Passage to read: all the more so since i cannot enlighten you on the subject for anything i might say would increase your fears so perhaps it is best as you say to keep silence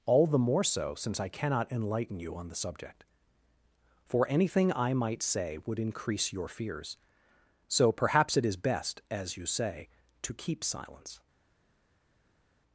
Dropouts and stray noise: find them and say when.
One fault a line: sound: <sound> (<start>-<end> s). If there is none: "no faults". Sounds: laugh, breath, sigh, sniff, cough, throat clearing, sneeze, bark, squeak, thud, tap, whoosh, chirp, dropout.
no faults